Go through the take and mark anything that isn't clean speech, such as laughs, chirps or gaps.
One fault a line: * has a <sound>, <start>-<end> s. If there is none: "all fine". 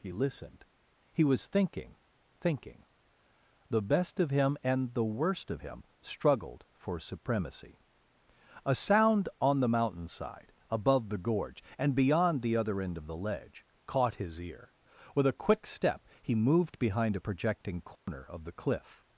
* has a dropout, 18.0-18.1 s